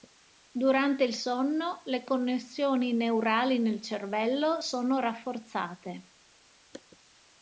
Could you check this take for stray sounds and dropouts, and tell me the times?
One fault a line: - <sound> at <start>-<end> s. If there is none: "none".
none